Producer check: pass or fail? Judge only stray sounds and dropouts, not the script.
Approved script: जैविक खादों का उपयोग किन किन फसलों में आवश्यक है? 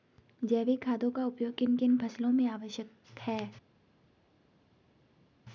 pass